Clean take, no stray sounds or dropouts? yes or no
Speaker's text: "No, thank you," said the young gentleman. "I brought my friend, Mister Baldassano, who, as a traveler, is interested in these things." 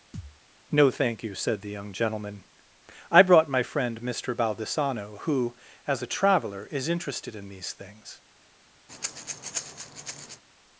no